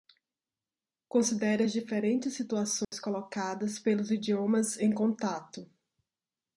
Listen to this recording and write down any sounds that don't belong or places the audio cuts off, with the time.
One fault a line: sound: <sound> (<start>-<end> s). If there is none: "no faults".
sound: dropout (2.8-2.9 s)